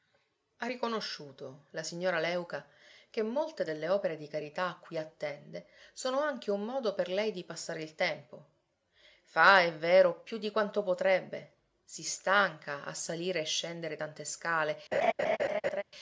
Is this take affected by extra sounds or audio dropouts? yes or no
yes